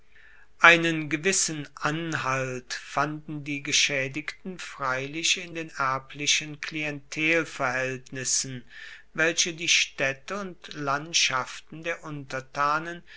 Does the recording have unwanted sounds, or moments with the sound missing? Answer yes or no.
no